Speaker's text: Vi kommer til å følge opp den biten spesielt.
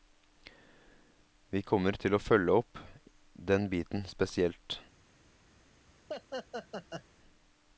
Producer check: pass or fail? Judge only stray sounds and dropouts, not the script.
fail